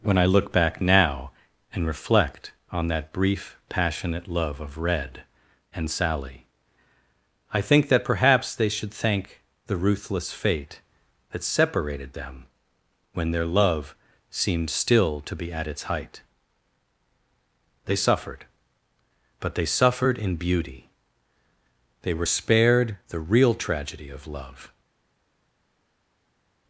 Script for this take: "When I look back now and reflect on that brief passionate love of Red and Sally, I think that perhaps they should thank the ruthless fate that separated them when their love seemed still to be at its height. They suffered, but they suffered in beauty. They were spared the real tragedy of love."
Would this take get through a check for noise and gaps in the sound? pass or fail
pass